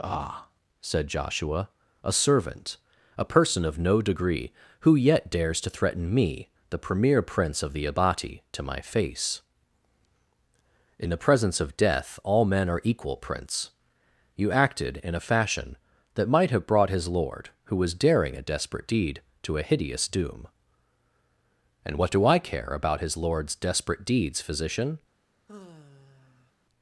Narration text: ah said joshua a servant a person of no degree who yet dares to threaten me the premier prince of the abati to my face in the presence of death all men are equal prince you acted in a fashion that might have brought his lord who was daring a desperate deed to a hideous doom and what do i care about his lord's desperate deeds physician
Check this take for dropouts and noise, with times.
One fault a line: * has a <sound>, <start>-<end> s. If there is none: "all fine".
* has a sigh, 25.5-26.5 s